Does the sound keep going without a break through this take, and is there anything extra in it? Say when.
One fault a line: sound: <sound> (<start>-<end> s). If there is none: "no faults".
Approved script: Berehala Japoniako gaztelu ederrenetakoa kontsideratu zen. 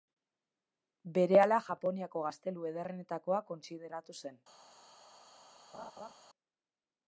sound: laugh (5.7-6.1 s)